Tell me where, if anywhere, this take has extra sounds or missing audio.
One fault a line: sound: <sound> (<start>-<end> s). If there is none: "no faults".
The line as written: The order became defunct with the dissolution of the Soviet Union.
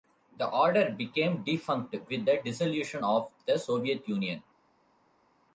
no faults